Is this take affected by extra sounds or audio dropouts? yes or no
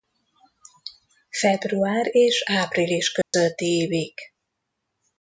yes